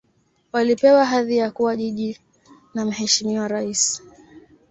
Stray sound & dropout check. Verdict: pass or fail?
pass